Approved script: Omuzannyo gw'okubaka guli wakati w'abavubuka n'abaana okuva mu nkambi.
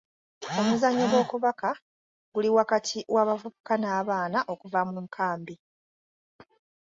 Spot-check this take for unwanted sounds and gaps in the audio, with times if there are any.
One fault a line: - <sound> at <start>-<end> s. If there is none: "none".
none